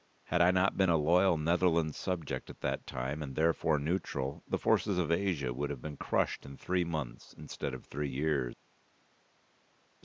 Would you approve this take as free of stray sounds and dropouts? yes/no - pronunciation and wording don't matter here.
yes